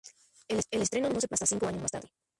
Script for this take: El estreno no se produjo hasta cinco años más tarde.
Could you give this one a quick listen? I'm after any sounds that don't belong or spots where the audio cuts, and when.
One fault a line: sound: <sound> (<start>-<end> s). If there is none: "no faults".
no faults